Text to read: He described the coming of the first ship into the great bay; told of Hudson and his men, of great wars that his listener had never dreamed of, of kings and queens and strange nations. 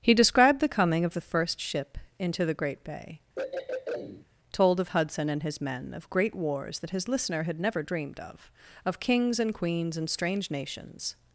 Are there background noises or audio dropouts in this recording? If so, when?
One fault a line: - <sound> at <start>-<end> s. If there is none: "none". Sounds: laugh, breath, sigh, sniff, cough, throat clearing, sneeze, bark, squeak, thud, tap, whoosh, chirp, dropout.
- throat clearing at 3.4-4.3 s